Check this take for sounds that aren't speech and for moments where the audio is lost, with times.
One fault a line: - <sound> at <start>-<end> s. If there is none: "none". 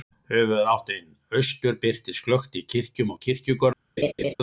- laugh at 4.0-4.3 s